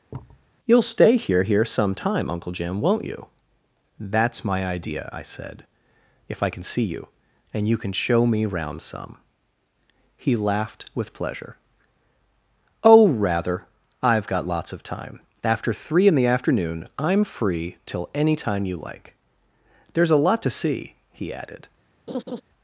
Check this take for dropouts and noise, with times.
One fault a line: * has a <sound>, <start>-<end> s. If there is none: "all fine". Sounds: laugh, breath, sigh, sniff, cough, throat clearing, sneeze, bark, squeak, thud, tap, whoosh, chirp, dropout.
* has a thud, 0.1-0.5 s
* has a laugh, 22.1-22.4 s